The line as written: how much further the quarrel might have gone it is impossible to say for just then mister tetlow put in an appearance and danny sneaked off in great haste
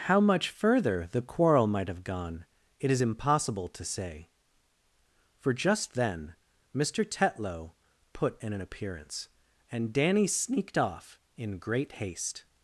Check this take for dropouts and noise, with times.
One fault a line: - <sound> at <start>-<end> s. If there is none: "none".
none